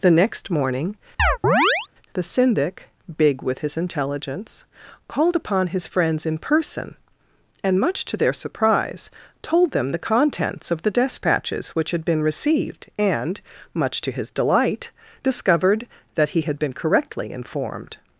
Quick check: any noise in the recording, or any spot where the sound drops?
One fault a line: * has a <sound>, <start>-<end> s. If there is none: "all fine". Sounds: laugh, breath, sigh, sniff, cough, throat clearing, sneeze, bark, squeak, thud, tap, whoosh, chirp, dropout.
* has a chirp, 1.2-1.9 s